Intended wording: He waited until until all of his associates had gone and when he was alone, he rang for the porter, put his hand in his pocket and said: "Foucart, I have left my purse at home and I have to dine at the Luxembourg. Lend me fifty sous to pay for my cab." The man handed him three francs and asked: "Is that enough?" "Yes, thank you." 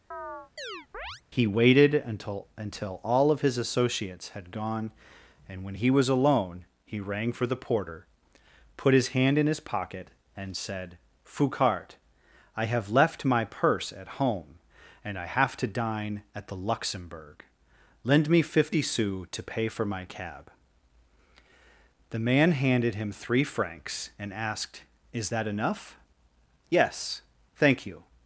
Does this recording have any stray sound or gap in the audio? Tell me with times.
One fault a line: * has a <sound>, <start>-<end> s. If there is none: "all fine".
* has a chirp, 0.1-1.2 s